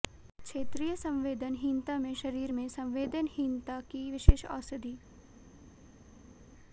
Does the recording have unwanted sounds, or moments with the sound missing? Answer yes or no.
no